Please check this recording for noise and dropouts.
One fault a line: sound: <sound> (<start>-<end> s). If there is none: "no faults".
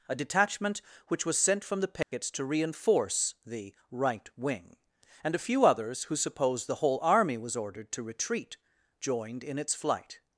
sound: dropout (2.0-2.1 s)